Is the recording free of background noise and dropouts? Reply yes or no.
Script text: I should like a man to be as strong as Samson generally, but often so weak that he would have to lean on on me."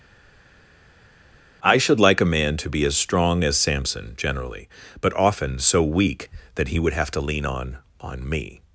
yes